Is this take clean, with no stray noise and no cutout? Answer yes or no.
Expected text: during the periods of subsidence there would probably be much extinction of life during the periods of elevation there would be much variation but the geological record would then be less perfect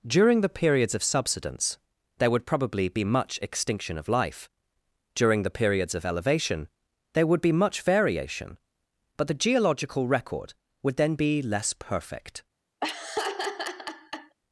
no